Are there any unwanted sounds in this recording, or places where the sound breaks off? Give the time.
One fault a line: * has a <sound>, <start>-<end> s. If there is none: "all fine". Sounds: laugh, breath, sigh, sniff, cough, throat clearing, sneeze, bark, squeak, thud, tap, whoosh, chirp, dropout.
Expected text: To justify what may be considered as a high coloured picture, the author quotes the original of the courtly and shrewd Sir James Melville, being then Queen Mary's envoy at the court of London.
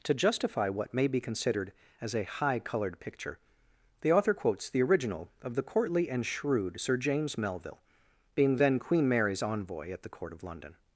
all fine